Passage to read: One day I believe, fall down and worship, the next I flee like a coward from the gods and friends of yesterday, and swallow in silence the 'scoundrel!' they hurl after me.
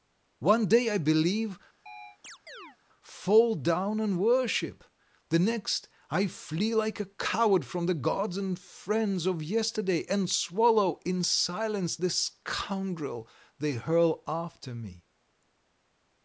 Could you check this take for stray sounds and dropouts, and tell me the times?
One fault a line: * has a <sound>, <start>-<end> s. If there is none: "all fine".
* has a chirp, 1.9-2.8 s